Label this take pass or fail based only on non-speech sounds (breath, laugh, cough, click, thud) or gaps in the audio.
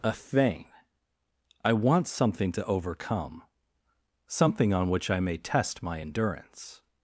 pass